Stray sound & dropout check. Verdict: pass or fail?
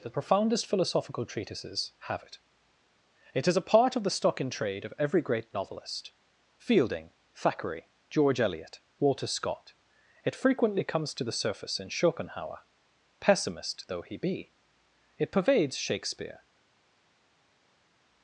pass